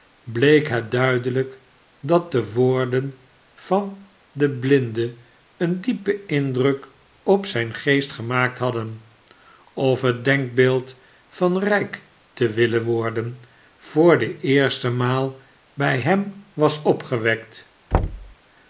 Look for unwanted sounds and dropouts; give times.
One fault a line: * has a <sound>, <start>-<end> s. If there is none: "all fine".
* has a thud, 17.9-18.4 s